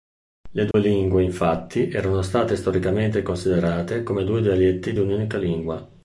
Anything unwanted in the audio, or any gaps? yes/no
yes